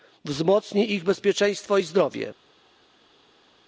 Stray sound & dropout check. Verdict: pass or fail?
pass